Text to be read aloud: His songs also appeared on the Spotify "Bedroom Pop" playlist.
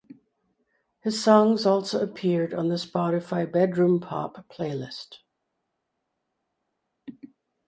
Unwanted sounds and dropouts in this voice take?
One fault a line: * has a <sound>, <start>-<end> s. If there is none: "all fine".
all fine